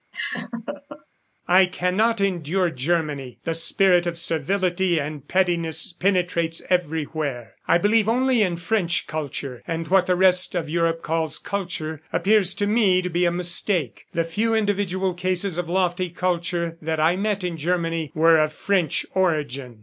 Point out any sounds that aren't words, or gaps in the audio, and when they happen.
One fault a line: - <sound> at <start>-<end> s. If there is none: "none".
- laugh at 0.1-1.1 s